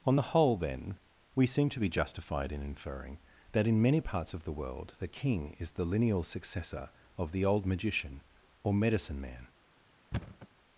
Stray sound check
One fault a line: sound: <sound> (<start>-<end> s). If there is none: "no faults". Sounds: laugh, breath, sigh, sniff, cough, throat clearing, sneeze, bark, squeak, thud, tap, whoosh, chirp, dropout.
sound: thud (10.1-10.5 s)